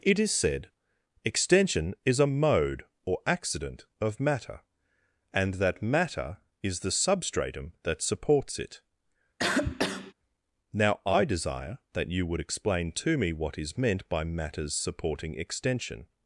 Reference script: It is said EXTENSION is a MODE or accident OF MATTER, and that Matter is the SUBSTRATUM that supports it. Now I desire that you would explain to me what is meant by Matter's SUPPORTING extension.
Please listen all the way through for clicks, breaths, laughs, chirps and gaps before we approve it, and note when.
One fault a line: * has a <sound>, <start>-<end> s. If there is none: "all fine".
* has a cough, 9.4-10.1 s